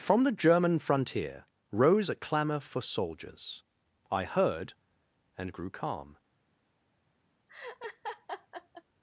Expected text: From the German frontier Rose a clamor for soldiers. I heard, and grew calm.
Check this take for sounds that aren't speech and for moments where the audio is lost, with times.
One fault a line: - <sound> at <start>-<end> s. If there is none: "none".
- laugh at 7.5-8.8 s